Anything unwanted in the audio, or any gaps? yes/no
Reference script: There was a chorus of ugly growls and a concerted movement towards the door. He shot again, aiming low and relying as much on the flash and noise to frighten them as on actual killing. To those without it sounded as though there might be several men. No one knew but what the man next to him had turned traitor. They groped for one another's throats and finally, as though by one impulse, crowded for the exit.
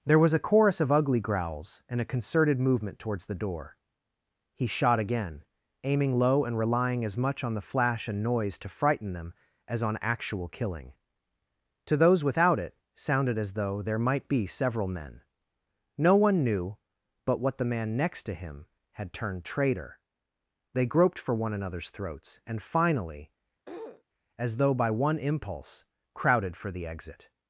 yes